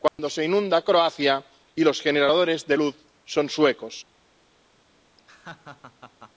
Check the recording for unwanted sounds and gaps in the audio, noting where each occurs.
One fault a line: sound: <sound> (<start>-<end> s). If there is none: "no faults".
sound: dropout (0.1-0.2 s)
sound: laugh (5.2-6.3 s)